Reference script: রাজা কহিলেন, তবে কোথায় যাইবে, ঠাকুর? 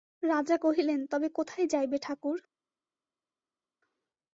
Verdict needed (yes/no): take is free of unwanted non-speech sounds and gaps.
yes